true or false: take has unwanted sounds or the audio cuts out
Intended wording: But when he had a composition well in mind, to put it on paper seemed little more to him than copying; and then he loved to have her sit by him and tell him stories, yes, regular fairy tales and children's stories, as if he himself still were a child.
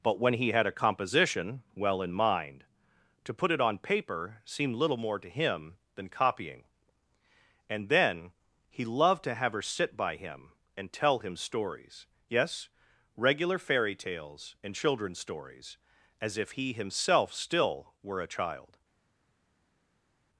false